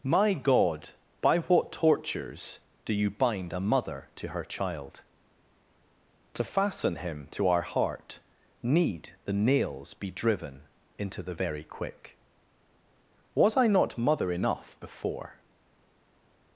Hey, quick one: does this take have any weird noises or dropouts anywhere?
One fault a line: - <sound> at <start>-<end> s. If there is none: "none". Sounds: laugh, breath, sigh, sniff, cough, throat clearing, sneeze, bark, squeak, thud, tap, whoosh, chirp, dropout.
none